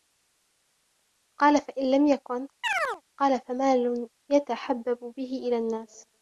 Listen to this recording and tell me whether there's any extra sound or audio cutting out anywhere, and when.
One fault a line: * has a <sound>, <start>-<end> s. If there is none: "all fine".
* has a chirp, 2.6-3.0 s